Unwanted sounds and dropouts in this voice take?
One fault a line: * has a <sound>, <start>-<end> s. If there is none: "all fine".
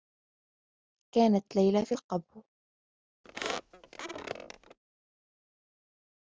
* has a squeak, 3.2-4.8 s